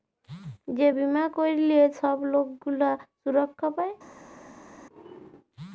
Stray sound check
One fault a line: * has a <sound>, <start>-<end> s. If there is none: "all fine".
all fine